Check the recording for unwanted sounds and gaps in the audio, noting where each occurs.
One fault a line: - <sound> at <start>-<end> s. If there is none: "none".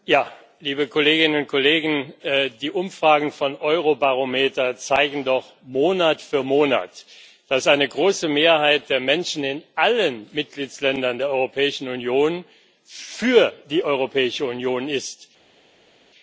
none